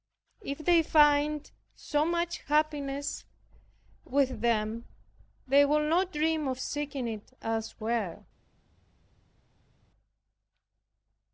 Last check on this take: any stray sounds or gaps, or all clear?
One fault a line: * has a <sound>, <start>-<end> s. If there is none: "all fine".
all fine